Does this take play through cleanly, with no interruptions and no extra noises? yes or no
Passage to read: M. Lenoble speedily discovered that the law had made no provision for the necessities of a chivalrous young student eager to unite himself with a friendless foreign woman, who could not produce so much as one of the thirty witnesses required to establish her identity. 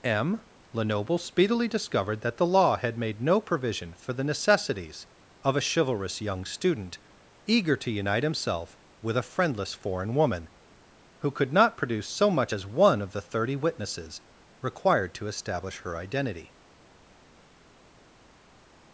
yes